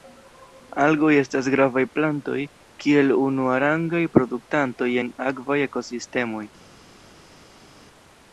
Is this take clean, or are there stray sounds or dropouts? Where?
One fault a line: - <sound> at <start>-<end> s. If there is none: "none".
none